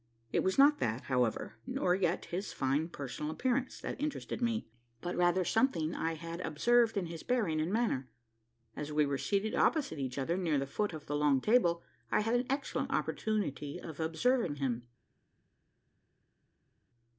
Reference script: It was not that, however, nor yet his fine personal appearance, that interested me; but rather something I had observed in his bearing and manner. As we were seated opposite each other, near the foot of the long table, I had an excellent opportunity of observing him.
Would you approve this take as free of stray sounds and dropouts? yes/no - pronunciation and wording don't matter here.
yes